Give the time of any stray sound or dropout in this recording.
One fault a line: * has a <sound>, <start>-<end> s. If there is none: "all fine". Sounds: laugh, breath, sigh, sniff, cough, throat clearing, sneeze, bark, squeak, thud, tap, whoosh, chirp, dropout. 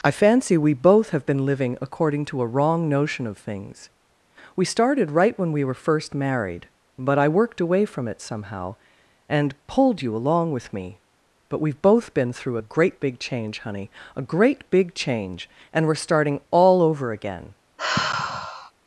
* has a sigh, 17.8-18.7 s